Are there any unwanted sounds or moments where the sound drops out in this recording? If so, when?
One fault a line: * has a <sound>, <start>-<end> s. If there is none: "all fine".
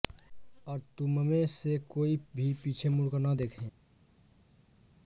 all fine